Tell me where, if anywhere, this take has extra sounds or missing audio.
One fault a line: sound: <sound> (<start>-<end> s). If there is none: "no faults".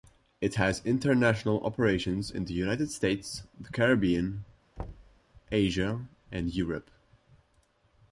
sound: thud (4.8-5.2 s)